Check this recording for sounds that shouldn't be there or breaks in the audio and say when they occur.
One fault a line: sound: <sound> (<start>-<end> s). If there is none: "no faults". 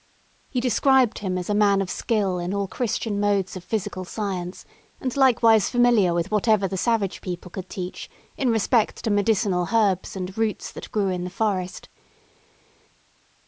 no faults